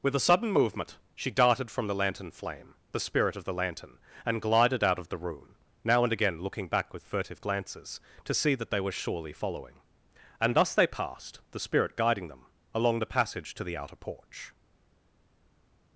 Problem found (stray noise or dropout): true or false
false